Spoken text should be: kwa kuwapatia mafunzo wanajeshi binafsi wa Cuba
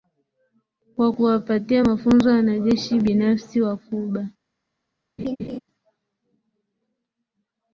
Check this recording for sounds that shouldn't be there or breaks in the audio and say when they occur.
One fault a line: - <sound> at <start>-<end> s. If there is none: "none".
- laugh at 5.2-5.6 s